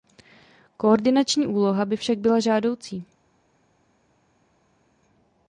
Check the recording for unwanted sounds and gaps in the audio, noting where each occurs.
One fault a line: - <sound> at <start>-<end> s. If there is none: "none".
none